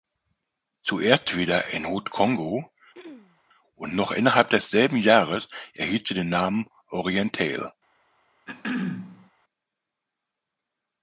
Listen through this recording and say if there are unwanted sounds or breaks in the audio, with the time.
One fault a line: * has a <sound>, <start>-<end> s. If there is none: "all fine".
* has a throat clearing, 2.9-3.4 s
* has a throat clearing, 8.5-9.3 s